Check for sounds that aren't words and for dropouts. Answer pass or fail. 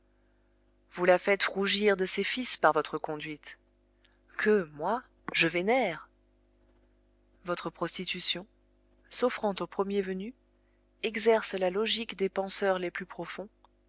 pass